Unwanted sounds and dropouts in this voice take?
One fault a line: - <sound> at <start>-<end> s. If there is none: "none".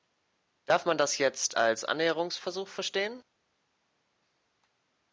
none